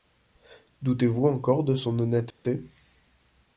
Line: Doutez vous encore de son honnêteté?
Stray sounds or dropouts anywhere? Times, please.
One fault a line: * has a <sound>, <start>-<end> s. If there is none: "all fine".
* has a dropout, 2.3-2.4 s